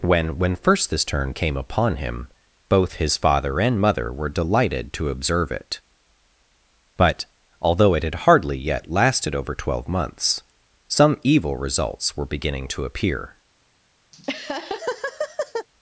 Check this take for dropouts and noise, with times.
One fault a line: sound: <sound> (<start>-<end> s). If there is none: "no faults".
sound: laugh (14.1-15.7 s)